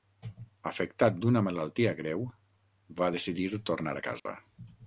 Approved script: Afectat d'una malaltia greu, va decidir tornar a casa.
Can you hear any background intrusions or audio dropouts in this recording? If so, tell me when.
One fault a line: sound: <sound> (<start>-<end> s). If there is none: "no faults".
sound: dropout (4.2-4.3 s)